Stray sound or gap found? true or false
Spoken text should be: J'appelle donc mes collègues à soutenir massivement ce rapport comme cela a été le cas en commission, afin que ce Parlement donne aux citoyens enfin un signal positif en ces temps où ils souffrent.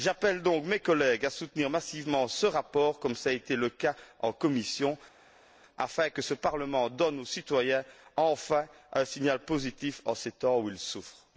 false